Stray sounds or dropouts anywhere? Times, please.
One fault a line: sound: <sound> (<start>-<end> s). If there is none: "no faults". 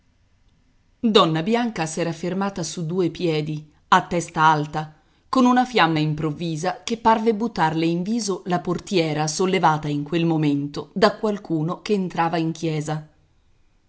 no faults